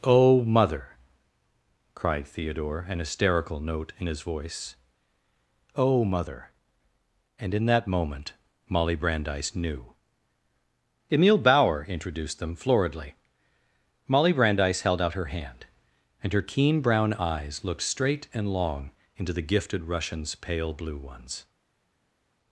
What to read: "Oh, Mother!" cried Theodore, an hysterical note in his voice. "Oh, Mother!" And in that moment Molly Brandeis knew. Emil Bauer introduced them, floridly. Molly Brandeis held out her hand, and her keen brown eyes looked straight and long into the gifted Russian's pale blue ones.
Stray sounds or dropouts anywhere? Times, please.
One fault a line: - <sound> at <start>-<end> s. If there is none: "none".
none